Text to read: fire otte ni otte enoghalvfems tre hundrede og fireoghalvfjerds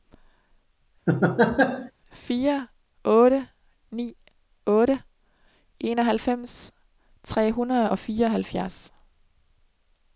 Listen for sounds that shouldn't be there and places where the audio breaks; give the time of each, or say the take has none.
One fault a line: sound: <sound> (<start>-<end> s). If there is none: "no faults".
sound: laugh (1.1-1.9 s)